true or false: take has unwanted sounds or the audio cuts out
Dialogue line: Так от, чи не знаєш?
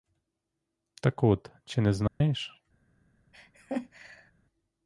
true